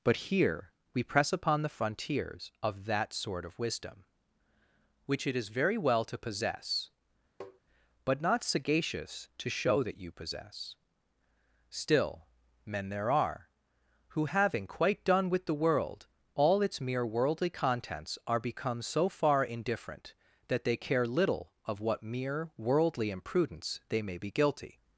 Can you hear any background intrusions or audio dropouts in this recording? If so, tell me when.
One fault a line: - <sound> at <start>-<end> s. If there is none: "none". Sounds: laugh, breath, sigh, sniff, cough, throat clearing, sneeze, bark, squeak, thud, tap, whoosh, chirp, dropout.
- tap at 7.4-7.6 s